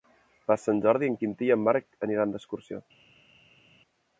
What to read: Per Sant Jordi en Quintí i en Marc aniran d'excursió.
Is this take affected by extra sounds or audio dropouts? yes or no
no